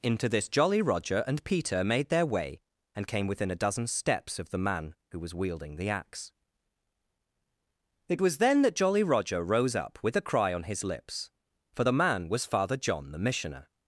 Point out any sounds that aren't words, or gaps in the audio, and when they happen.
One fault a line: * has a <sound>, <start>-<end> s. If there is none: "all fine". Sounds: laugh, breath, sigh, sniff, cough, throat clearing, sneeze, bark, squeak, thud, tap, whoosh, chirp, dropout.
all fine